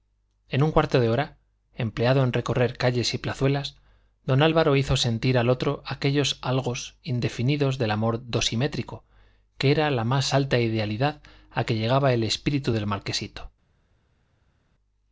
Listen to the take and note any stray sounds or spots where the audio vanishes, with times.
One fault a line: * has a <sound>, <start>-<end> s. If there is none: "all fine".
all fine